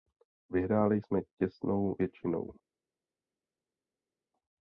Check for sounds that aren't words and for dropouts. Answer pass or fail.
pass